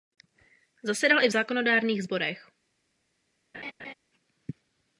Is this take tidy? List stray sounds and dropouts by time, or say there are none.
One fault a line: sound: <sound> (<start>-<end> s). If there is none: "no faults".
sound: laugh (3.5-3.9 s)